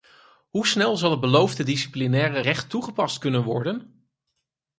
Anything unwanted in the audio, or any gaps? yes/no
no